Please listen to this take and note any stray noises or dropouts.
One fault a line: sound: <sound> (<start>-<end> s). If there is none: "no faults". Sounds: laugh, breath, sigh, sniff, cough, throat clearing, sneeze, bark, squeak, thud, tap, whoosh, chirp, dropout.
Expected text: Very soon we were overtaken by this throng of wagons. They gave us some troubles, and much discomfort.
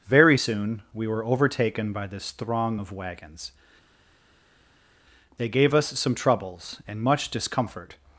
no faults